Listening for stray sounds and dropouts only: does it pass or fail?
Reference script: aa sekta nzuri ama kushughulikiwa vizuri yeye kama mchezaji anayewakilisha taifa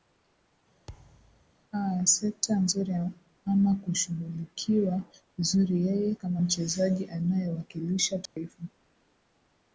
fail